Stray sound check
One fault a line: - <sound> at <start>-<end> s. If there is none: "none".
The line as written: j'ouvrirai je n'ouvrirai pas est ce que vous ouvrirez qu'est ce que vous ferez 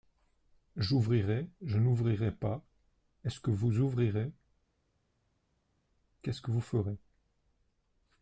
none